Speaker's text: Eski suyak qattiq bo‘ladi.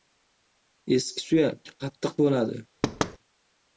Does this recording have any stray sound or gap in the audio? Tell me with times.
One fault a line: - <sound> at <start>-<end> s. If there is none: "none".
- thud at 2.8-3.2 s